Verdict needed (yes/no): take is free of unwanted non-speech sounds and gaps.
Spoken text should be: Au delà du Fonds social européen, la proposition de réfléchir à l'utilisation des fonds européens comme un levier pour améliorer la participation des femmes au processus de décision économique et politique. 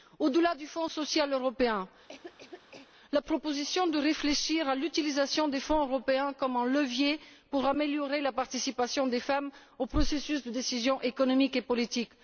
no